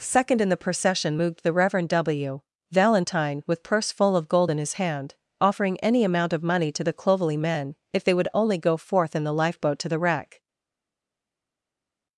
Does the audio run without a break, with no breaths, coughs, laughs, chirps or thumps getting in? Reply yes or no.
yes